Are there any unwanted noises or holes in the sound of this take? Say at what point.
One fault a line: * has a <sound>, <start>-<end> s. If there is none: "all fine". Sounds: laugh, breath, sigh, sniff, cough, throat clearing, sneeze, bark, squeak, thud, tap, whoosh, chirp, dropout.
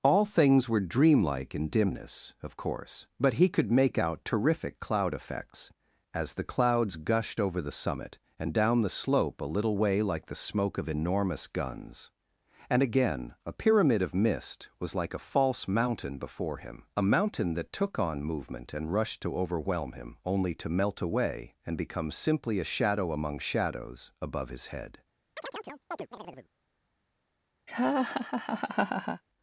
* has a chirp, 25.4-26.5 s
* has a laugh, 27.7-29.2 s